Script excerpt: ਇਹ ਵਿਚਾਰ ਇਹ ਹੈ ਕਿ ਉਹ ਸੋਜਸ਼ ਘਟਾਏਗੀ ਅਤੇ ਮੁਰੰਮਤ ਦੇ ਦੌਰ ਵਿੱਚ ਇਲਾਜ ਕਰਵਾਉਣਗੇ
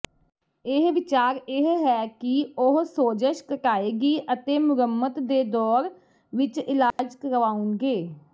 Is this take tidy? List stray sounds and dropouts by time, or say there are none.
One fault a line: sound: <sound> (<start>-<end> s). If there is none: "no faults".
sound: dropout (6.9-7.0 s)